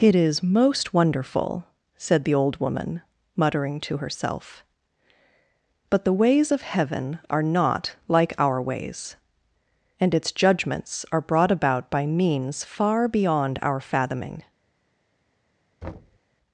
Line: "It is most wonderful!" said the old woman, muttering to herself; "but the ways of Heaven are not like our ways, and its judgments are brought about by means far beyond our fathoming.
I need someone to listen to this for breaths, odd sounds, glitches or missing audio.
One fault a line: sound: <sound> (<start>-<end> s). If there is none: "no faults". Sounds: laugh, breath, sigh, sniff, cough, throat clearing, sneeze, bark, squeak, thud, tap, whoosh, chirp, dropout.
sound: thud (15.8-16.2 s)